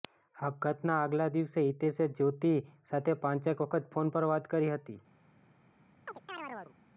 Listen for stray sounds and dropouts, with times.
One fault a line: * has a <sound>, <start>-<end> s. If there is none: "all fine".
* has a chirp, 6.1-6.8 s